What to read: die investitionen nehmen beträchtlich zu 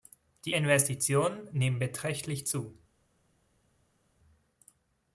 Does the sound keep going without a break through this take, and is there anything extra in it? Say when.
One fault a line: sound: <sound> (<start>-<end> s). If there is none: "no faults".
no faults